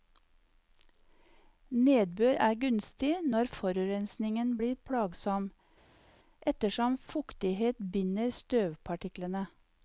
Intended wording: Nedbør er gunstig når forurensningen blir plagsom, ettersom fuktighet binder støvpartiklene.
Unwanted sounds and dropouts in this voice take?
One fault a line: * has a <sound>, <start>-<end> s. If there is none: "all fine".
all fine